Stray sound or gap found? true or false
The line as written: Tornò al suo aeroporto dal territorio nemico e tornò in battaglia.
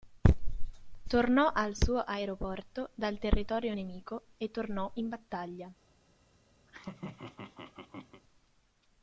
true